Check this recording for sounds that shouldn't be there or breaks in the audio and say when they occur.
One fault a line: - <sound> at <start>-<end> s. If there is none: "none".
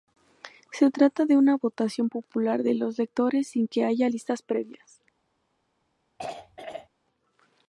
- throat clearing at 6.2-6.9 s